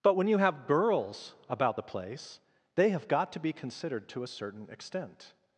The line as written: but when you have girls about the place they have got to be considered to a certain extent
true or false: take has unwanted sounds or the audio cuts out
false